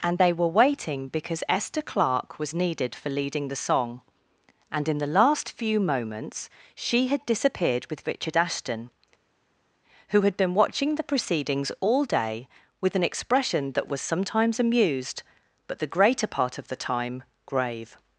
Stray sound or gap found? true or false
false